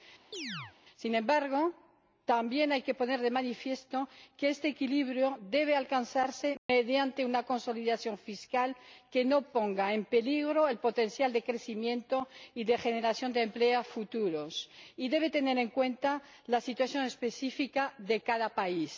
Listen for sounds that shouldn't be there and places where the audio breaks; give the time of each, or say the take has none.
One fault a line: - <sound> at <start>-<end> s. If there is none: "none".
- chirp at 0.3-0.7 s
- dropout at 6.6-6.7 s